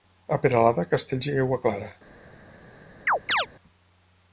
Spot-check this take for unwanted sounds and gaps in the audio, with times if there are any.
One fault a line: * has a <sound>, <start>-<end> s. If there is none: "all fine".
* has a chirp, 3.1-3.5 s